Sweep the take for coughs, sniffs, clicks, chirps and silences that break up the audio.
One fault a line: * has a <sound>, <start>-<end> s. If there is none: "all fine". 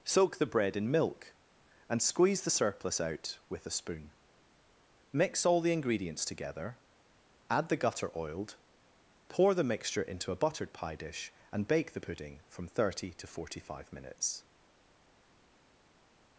all fine